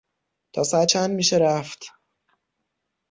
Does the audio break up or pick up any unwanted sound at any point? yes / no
no